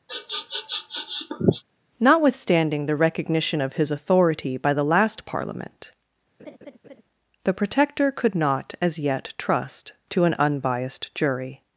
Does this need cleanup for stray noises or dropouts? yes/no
yes